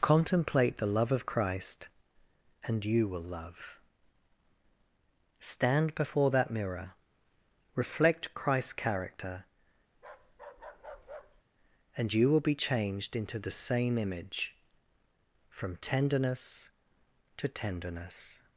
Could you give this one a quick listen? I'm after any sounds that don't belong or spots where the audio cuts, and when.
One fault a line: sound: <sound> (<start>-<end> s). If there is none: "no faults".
sound: bark (9.9-11.4 s)